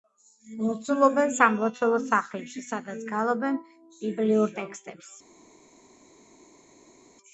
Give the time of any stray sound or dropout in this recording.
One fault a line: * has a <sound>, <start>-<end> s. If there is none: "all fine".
all fine